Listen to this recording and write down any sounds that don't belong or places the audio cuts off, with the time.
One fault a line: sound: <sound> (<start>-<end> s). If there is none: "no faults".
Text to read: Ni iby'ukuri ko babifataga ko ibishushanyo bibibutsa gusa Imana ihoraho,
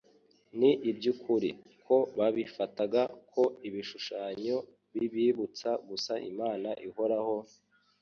no faults